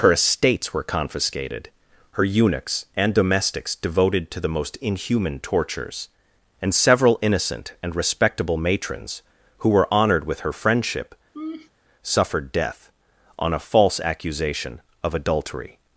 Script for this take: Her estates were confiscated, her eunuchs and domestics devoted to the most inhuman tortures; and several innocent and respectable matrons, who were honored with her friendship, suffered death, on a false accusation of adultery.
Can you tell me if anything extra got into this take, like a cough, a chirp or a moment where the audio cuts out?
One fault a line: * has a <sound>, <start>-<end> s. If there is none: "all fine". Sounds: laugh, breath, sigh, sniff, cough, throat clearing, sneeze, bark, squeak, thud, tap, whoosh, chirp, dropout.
* has a laugh, 11.3-11.7 s